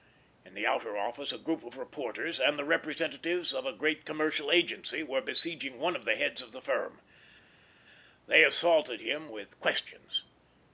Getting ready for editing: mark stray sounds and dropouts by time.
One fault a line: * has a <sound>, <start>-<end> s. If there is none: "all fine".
all fine